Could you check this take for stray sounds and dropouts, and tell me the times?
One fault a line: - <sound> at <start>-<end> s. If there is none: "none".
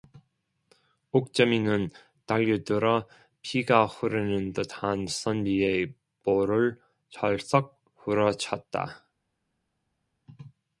none